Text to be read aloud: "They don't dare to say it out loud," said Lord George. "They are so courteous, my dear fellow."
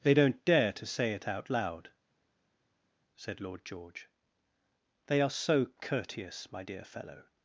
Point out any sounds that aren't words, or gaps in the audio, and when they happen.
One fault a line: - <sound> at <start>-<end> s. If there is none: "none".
none